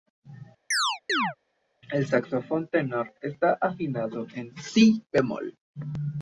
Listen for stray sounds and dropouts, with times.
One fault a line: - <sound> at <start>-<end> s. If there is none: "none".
- chirp at 0.7-1.4 s